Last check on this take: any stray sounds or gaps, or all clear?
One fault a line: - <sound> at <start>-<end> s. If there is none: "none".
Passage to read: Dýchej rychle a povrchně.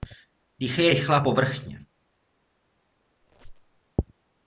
- squeak at 3.2-3.8 s